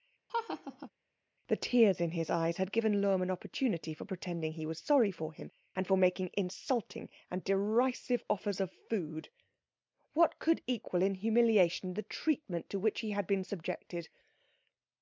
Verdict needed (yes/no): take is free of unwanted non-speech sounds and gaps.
no